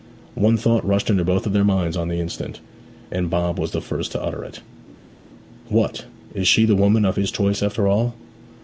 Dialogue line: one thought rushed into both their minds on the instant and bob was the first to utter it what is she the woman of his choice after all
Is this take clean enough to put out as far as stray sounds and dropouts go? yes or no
yes